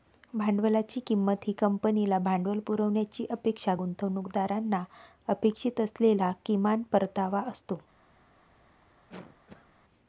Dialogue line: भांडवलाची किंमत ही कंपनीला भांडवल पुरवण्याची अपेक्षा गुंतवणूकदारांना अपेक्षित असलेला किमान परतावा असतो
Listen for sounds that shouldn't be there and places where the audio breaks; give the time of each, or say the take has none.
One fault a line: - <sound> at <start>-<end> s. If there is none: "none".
- cough at 9.1-9.7 s